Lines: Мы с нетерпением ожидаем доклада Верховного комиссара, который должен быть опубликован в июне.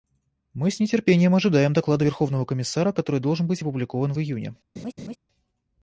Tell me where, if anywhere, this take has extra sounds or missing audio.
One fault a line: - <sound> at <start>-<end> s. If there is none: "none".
- laugh at 4.8-5.2 s